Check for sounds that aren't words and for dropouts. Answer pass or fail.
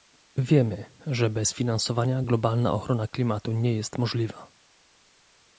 pass